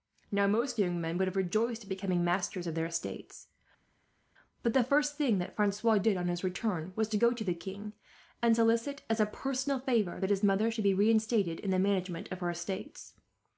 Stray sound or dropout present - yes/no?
no